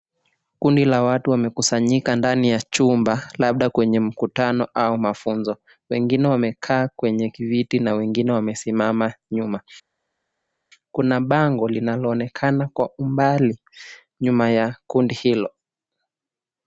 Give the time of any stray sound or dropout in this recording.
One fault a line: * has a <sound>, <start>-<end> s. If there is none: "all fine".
all fine